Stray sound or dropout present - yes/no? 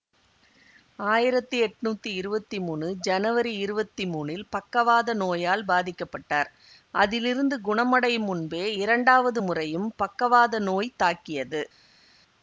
no